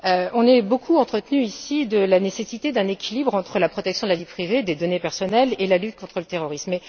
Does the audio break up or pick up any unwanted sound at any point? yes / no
no